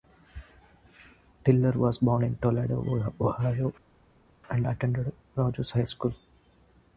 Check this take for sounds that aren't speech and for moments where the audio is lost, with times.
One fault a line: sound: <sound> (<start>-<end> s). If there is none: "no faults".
no faults